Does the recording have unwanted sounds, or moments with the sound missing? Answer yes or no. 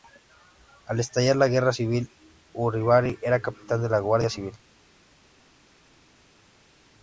no